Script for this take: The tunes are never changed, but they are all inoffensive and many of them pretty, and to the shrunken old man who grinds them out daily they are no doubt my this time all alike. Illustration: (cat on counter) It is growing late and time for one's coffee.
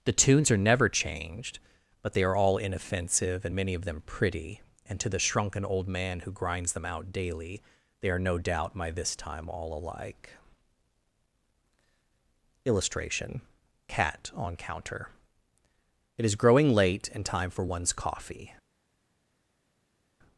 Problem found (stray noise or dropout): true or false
false